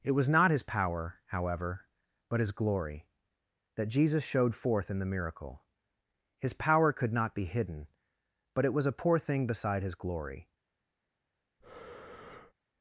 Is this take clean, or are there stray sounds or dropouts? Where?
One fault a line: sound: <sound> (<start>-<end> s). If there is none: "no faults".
sound: breath (11.6-12.5 s)